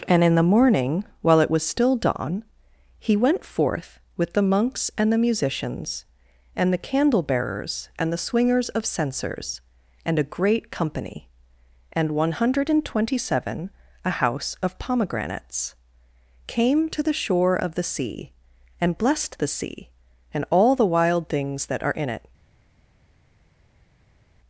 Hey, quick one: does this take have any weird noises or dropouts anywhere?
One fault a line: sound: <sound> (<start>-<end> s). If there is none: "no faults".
no faults